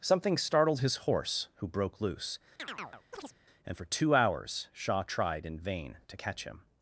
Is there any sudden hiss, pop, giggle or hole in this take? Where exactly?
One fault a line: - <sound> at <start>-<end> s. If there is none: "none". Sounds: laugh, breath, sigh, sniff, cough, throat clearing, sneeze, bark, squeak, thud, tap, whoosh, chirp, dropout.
- chirp at 2.6-3.4 s